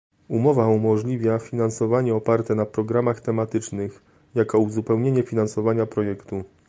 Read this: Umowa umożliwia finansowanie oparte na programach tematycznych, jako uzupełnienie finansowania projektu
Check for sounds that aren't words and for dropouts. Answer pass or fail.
pass